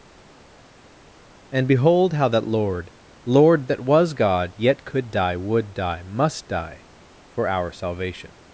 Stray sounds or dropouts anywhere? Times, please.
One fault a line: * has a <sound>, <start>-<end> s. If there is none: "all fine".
all fine